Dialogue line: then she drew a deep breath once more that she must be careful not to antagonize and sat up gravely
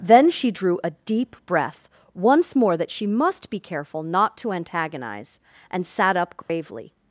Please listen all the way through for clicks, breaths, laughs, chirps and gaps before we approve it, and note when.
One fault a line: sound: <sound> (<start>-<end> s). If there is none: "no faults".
sound: dropout (6.4-6.5 s)